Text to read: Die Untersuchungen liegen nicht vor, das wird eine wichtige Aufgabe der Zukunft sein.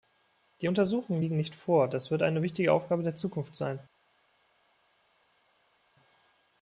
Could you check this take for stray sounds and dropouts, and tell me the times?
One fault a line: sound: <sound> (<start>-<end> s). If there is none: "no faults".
no faults